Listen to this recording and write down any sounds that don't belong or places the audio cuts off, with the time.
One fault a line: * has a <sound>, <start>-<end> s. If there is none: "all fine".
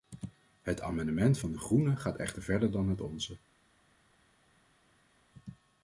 all fine